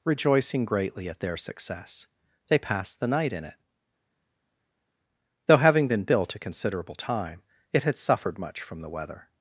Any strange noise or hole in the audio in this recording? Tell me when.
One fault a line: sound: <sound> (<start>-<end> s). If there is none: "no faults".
no faults